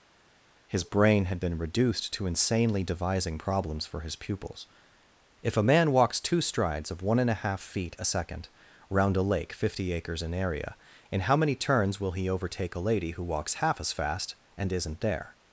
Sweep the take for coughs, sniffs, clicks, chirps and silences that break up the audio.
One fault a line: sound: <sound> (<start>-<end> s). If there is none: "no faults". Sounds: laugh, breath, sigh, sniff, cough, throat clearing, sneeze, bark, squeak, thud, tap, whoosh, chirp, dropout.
no faults